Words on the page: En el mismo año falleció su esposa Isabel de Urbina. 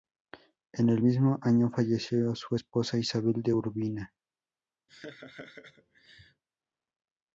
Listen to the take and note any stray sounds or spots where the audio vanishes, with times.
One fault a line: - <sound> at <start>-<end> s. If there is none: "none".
- laugh at 4.9-6.4 s